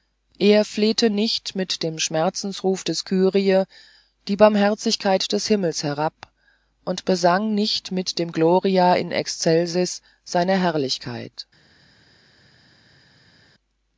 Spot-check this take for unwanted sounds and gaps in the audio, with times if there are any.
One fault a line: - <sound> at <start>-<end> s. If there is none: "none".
none